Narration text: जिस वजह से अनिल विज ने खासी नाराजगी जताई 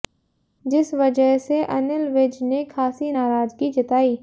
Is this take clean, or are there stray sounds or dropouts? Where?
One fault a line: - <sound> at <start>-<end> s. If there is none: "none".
none